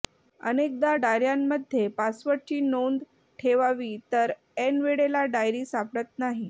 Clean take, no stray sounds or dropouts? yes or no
yes